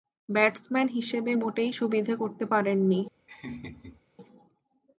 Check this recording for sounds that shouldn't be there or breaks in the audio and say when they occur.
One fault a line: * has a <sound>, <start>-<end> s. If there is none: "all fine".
* has a laugh, 3.3-4.0 s